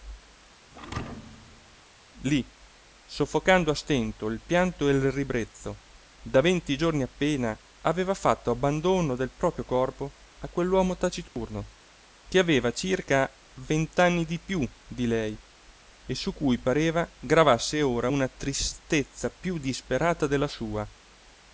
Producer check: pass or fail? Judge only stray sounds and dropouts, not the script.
fail